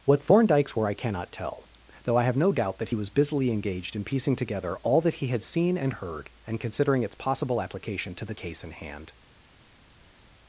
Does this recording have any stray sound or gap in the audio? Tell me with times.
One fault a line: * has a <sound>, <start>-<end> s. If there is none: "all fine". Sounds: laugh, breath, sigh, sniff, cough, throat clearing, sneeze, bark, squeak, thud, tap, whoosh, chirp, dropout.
all fine